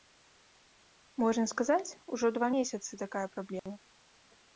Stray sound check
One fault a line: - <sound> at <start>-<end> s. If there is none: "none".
- dropout at 3.6-3.7 s